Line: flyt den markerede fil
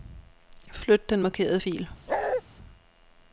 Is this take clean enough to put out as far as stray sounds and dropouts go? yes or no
no